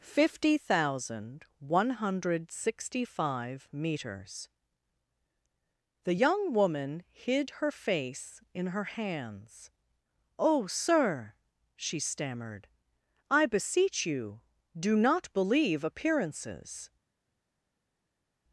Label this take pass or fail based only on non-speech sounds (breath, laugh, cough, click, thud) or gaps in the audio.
pass